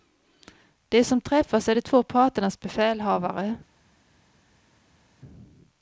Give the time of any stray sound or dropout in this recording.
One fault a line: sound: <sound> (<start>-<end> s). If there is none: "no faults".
no faults